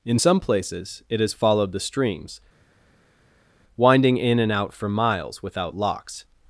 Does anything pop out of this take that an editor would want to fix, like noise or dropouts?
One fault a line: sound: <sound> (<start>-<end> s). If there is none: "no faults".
no faults